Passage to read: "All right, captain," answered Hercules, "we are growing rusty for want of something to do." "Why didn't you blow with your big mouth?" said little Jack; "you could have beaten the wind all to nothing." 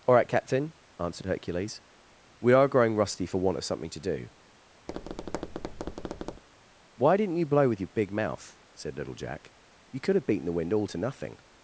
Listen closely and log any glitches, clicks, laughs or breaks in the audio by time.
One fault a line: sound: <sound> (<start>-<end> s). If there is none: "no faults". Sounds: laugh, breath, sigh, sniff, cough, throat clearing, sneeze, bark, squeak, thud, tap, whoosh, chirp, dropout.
sound: tap (4.9-6.4 s)